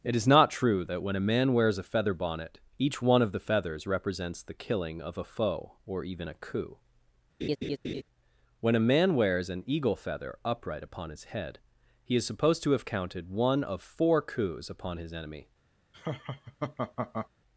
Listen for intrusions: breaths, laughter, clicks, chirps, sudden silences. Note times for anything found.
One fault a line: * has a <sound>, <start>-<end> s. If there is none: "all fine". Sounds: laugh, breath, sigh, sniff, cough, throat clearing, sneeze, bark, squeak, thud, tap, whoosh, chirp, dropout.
* has a laugh, 7.4-8.0 s
* has a laugh, 15.9-17.3 s